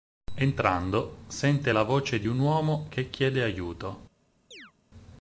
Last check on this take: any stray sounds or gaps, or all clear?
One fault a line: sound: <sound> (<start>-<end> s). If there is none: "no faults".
sound: chirp (4.5-4.7 s)